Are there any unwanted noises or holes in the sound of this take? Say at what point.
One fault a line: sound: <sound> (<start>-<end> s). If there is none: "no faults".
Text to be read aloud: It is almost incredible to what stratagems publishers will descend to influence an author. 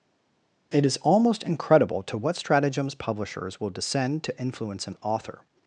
no faults